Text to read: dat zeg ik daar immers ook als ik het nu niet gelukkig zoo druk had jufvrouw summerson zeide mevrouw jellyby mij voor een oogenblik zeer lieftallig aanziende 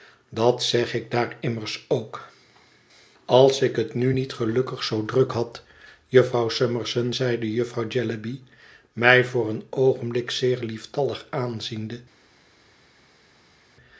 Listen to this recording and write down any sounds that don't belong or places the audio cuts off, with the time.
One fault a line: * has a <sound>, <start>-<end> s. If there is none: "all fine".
all fine